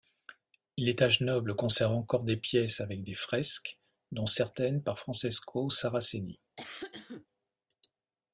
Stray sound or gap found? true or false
true